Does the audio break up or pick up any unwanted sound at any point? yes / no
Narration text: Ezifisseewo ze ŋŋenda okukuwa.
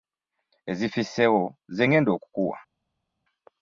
no